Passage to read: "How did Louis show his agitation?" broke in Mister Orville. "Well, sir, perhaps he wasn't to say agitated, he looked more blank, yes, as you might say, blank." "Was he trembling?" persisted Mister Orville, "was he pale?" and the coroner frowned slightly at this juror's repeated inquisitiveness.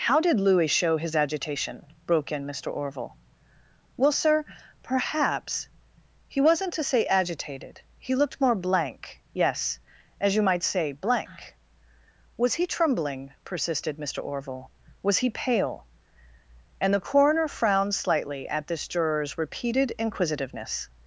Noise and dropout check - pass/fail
pass